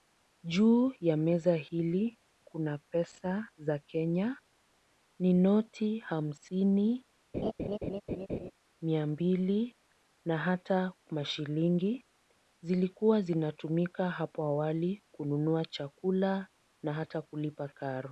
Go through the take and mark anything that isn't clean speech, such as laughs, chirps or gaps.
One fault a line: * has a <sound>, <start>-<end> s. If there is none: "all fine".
* has a laugh, 7.3-8.5 s